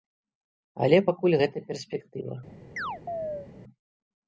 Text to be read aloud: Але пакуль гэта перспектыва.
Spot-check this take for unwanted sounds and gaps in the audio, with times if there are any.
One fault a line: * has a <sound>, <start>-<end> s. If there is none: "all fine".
* has a chirp, 2.8-3.5 s